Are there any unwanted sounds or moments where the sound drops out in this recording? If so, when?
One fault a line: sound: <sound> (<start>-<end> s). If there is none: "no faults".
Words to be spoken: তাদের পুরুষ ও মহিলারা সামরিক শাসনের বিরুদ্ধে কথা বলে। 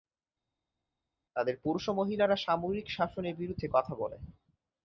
no faults